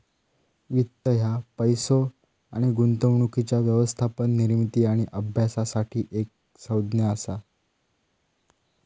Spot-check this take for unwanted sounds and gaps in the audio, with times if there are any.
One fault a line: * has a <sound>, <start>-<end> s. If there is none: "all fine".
all fine